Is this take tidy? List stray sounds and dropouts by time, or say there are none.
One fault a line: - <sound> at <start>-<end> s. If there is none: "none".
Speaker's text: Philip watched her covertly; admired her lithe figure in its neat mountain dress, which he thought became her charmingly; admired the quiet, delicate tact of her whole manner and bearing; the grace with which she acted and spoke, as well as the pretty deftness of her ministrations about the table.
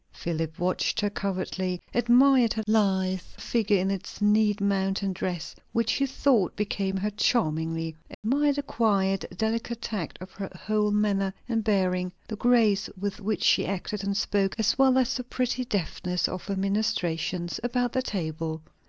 - dropout at 8.1-8.2 s